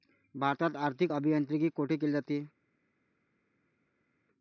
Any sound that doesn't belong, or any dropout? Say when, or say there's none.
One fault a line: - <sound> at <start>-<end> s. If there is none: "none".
none